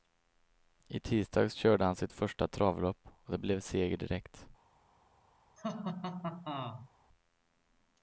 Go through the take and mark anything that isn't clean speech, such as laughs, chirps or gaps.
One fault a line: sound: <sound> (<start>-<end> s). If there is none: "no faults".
sound: laugh (5.6-6.9 s)